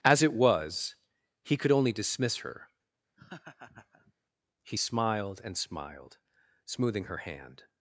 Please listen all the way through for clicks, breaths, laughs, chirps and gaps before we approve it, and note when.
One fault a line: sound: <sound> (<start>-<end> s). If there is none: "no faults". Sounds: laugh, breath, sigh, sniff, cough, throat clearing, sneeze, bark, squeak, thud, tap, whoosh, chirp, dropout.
sound: laugh (3.2-4.1 s)